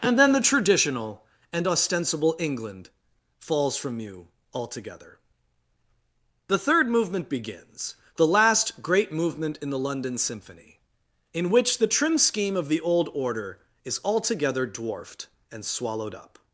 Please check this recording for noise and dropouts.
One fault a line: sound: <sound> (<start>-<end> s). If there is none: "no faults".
no faults